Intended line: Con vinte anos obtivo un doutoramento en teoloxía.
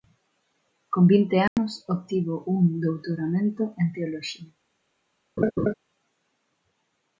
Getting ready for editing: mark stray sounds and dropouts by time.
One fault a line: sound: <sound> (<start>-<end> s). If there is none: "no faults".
sound: dropout (1.5-1.6 s)
sound: laugh (5.4-5.7 s)